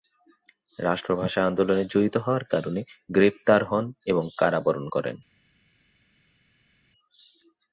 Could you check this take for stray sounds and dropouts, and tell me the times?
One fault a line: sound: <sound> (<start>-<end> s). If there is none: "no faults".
no faults